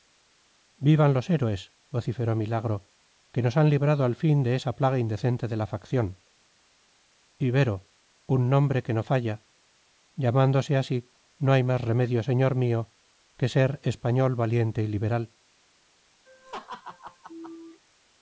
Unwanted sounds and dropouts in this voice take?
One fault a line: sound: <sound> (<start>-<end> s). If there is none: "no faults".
sound: laugh (16.3-17.8 s)